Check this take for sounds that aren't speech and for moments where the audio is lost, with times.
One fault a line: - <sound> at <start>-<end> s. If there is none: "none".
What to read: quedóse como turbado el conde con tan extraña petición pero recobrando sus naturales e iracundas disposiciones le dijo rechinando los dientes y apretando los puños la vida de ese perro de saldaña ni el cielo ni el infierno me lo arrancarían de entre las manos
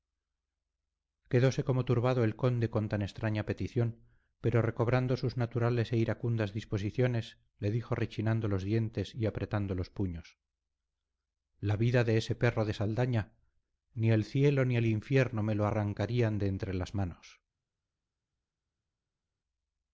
none